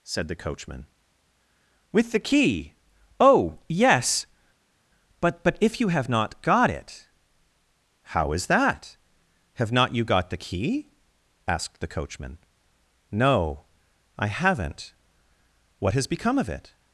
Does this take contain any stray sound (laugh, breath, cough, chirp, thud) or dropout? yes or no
no